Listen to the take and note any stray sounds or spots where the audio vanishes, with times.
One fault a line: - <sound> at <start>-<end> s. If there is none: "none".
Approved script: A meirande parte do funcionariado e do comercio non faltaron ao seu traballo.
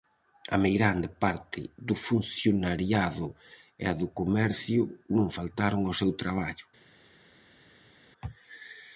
none